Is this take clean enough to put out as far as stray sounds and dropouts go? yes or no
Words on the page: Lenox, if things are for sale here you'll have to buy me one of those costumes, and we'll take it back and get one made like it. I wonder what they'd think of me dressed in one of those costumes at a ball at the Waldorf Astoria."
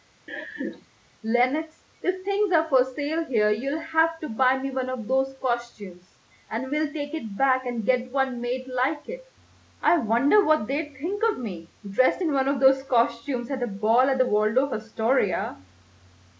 no